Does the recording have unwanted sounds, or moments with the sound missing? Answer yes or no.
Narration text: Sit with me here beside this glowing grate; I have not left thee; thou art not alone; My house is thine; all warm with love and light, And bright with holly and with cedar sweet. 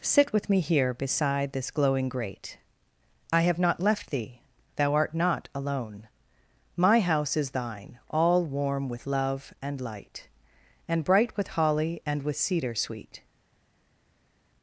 no